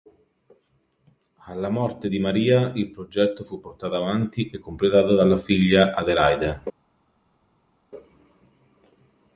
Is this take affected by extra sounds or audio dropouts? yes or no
no